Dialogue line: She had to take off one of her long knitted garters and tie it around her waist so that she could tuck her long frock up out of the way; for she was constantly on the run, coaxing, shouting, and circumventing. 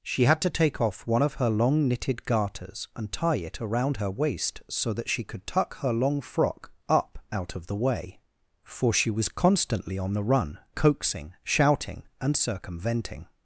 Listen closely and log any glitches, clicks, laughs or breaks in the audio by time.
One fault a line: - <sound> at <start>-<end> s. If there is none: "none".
none